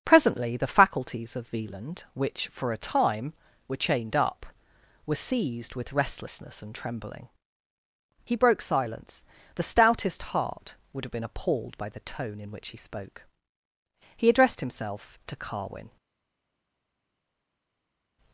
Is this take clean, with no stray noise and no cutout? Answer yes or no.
yes